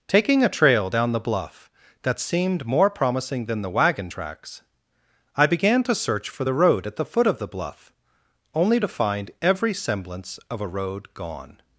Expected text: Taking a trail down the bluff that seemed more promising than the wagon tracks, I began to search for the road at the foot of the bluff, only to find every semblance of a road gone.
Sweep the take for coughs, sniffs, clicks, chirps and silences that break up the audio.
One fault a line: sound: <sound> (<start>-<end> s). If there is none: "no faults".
no faults